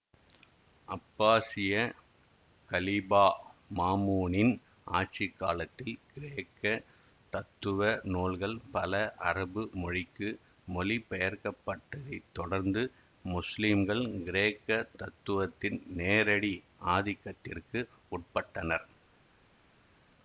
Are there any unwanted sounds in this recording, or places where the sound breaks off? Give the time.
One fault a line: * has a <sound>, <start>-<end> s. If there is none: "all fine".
all fine